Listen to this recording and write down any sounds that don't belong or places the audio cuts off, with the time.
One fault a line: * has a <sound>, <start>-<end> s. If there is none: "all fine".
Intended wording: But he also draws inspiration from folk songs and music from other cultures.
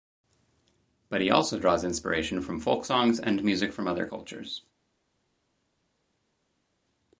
all fine